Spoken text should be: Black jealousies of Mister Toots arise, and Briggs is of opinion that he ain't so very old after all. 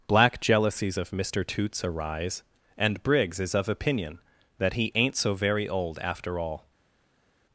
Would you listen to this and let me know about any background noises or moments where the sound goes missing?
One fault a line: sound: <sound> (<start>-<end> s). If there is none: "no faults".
no faults